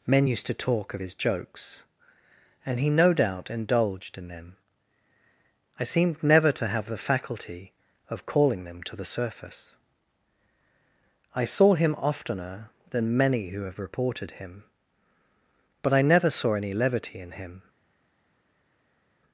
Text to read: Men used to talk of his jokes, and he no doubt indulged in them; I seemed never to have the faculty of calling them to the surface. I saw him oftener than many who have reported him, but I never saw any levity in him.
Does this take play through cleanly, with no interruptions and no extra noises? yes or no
yes